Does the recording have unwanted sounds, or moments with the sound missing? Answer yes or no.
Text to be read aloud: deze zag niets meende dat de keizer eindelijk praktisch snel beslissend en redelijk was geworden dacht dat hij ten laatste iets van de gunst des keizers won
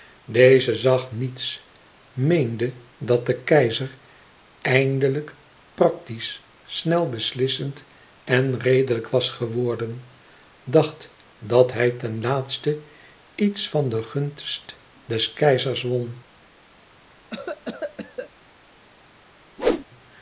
yes